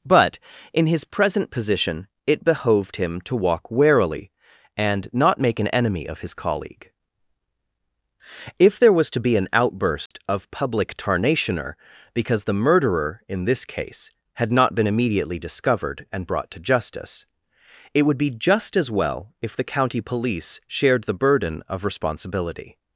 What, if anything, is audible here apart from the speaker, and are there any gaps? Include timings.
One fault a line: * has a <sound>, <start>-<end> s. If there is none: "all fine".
* has a dropout, 10.1-10.1 s